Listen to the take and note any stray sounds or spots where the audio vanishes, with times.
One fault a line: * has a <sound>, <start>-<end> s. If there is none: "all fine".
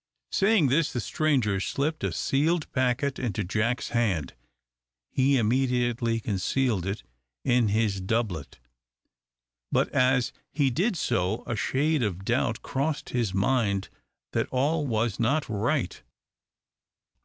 all fine